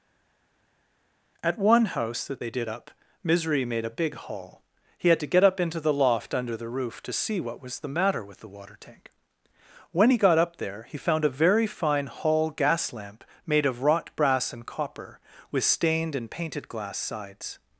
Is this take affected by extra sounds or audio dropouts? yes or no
no